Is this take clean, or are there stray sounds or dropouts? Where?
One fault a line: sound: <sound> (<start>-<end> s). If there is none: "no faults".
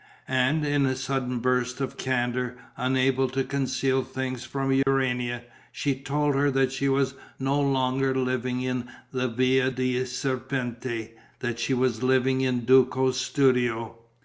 sound: dropout (4.8-4.9 s)